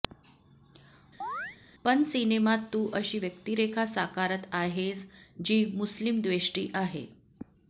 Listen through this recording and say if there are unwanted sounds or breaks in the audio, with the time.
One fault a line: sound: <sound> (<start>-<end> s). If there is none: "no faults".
sound: chirp (1.2-1.6 s)